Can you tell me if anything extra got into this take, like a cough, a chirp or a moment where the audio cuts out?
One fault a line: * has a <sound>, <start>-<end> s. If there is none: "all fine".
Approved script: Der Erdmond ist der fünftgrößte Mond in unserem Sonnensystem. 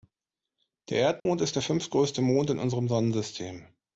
* has a dropout, 1.2-1.3 s